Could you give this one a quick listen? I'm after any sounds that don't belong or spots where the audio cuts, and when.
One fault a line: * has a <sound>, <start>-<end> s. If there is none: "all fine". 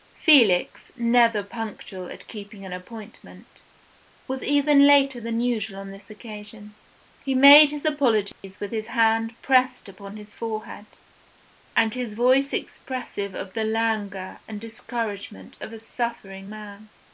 * has a dropout, 8.3-8.4 s